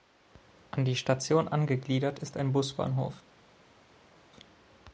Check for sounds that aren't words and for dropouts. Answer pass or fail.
pass